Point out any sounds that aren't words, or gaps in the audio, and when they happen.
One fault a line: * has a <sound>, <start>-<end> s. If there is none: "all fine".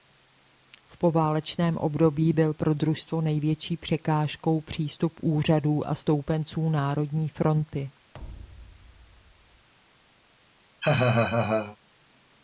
* has a thud, 8.1-9.7 s
* has a laugh, 10.8-11.8 s